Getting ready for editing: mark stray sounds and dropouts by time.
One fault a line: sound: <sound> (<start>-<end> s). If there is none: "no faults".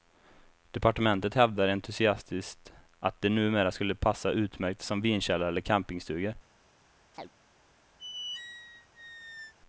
sound: chirp (7.1-7.3 s)
sound: squeak (8.0-9.5 s)